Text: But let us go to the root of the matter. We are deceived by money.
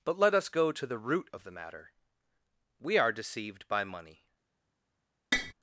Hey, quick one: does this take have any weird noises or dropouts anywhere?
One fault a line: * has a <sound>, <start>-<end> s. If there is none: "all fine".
* has a tap, 5.3-5.5 s